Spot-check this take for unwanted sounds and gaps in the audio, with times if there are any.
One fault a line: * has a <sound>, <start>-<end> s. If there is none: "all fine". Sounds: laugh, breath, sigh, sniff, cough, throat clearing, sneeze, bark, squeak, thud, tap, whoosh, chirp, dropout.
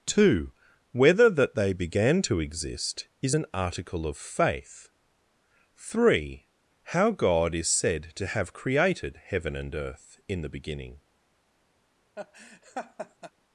* has a laugh, 12.1-13.3 s